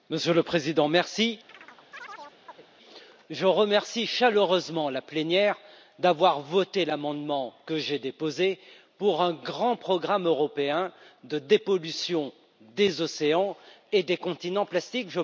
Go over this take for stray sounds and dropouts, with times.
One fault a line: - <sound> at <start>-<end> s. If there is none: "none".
- chirp at 1.5-2.7 s